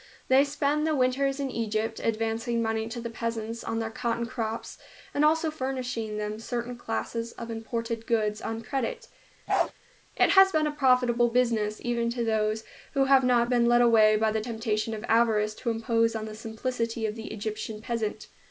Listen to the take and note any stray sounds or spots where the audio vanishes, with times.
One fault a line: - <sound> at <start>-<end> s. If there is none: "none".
- bark at 9.5-9.7 s